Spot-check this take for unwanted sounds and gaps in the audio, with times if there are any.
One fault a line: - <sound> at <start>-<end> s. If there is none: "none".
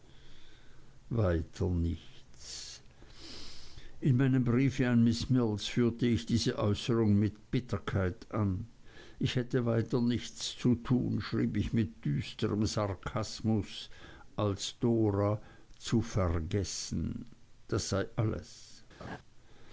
- laugh at 19.0-19.2 s